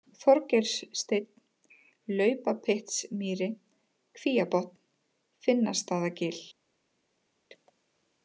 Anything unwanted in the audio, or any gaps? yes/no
no